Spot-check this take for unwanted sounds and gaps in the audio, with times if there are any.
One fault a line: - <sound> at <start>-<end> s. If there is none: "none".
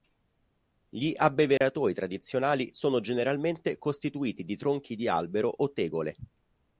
- dropout at 1.6-1.6 s